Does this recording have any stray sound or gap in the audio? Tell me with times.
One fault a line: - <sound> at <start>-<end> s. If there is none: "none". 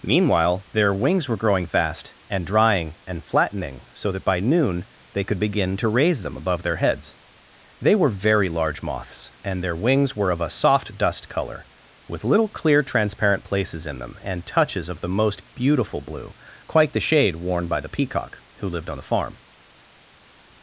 none